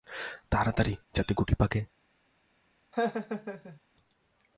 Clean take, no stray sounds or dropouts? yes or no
no